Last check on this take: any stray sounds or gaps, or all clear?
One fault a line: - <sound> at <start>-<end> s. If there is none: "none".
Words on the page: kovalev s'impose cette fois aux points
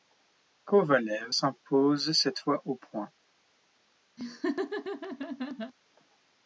- laugh at 4.2-5.7 s